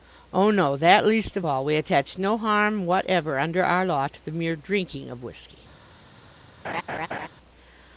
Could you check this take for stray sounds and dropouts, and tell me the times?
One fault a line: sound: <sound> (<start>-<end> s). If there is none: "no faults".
sound: laugh (6.6-7.3 s)